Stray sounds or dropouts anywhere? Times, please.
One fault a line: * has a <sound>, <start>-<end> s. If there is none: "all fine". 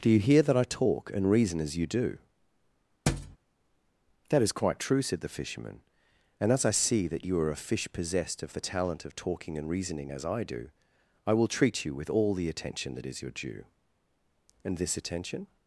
* has a thud, 3.1-3.4 s